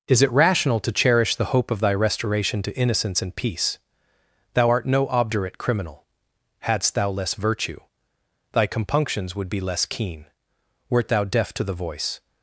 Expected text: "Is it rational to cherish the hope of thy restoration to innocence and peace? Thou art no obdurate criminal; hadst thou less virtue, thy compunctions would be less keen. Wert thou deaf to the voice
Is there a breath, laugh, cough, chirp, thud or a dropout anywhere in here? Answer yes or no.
no